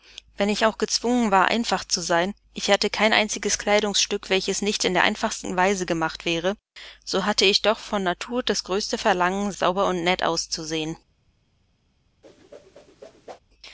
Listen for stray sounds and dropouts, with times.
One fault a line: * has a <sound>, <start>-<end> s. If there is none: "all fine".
* has a whoosh, 12.2-13.4 s